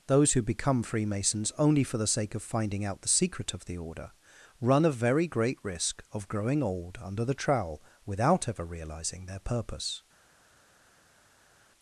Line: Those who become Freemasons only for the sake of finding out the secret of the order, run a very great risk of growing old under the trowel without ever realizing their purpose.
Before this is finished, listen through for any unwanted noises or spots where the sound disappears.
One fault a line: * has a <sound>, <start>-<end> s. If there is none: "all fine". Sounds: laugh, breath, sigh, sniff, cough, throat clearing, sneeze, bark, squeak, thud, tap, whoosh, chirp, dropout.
all fine